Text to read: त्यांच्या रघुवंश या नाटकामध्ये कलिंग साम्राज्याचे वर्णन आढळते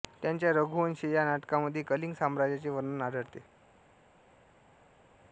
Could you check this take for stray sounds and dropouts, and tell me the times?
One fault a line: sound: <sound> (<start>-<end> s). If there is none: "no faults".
no faults